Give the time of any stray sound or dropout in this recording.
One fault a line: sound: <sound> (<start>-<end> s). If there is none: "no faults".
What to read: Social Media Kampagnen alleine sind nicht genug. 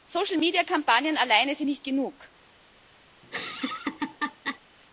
sound: laugh (3.2-4.6 s)